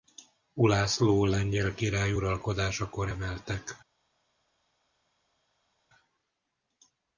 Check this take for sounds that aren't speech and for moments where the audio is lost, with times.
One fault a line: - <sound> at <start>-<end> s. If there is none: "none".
none